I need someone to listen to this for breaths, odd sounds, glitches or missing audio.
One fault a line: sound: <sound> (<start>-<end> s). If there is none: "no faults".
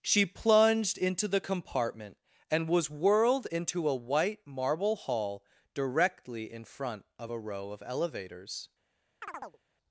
sound: chirp (9.2-9.6 s)